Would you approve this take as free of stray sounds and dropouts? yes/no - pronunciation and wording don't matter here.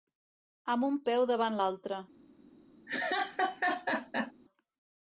no